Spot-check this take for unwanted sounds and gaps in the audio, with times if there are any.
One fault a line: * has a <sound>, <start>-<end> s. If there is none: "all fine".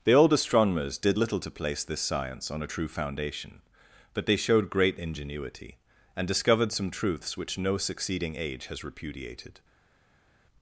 all fine